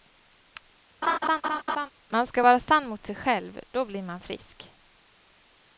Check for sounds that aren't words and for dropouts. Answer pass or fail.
fail